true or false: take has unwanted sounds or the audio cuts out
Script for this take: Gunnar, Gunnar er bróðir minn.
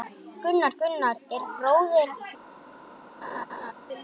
true